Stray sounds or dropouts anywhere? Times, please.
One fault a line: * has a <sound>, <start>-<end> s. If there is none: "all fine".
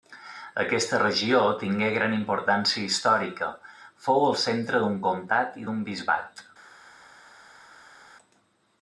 all fine